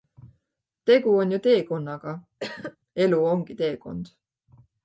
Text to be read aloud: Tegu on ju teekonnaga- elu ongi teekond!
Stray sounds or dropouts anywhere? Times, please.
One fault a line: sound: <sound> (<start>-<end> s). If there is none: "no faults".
sound: cough (2.4-2.8 s)